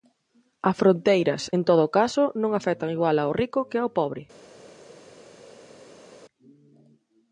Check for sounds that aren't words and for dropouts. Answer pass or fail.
pass